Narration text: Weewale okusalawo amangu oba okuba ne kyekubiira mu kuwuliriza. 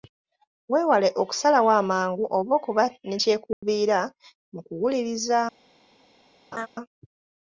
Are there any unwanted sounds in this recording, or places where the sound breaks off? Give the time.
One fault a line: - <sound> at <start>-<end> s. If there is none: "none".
- dropout at 3.5-3.6 s
- laugh at 6.5-6.7 s